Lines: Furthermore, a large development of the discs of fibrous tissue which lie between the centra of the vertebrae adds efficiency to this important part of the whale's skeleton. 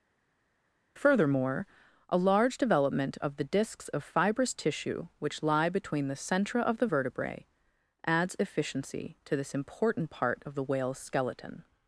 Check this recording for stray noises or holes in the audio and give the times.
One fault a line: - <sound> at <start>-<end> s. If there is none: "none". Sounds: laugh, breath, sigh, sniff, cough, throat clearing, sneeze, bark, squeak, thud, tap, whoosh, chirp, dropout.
none